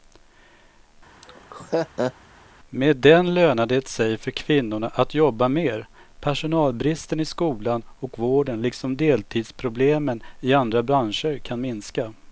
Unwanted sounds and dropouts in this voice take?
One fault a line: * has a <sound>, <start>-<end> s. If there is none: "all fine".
* has a laugh, 1.2-2.1 s